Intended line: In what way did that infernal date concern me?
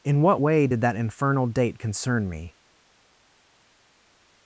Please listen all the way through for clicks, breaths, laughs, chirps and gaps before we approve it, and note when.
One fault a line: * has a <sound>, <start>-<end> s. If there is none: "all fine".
all fine